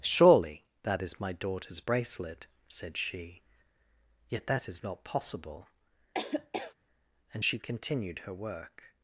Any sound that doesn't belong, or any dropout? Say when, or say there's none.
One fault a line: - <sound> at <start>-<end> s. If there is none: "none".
- laugh at 6.1-6.7 s